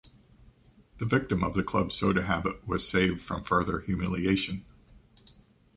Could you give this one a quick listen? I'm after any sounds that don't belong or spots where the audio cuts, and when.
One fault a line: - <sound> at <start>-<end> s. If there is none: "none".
none